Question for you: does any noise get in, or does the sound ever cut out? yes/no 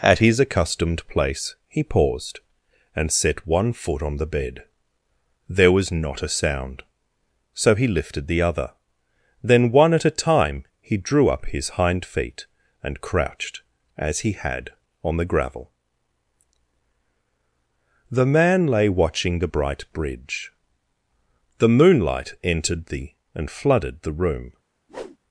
yes